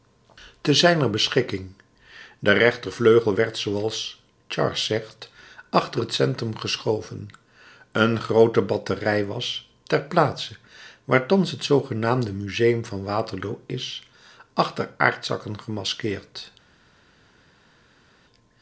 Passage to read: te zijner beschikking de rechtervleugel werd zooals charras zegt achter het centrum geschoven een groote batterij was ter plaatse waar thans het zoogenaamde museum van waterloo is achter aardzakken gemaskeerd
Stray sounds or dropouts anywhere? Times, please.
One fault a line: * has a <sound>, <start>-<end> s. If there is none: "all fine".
all fine